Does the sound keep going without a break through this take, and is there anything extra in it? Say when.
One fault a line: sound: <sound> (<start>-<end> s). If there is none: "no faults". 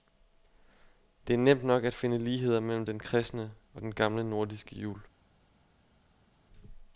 no faults